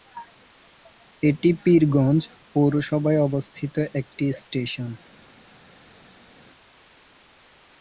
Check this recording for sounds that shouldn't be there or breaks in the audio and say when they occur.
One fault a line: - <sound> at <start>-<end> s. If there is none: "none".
none